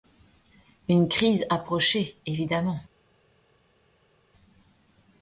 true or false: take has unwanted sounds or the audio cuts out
false